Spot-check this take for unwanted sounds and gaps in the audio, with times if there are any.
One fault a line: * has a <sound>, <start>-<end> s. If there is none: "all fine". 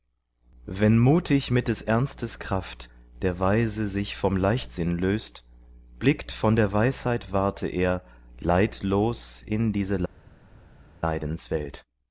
all fine